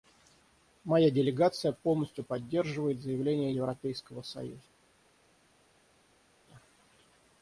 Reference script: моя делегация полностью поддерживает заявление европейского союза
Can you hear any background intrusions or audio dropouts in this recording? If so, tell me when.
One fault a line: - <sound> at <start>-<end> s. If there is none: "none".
none